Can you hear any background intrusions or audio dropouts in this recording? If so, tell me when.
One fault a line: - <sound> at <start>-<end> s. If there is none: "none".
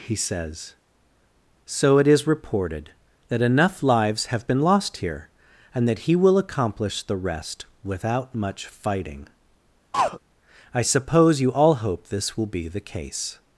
- throat clearing at 9.9-10.2 s